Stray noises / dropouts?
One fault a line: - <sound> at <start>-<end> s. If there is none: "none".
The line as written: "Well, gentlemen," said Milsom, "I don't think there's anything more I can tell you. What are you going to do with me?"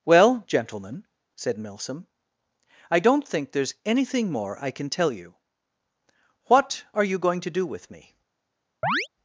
- chirp at 8.8-9.1 s